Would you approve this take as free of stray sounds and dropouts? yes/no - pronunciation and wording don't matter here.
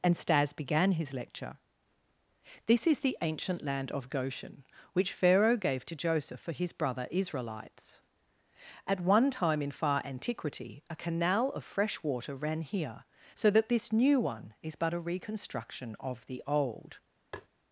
no